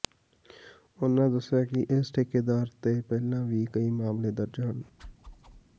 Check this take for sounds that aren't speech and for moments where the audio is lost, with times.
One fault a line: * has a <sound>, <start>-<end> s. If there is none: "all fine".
* has a whoosh, 5.0-5.6 s